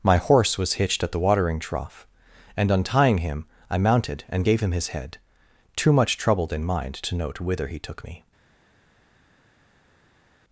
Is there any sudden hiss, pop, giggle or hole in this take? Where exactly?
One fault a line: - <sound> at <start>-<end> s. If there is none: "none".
none